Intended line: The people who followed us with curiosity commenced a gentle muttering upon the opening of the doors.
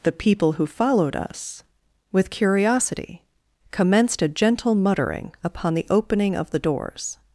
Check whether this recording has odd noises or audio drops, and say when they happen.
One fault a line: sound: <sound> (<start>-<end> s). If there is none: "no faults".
no faults